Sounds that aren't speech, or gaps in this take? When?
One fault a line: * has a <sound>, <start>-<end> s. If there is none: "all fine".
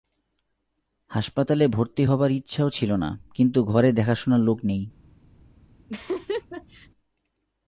* has a laugh, 5.9-6.9 s